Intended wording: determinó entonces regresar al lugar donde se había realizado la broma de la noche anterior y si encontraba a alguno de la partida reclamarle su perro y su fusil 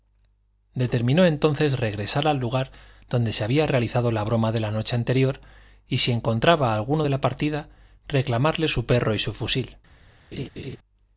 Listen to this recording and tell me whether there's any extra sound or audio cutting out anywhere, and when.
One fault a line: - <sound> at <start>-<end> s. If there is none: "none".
- laugh at 10.3-10.8 s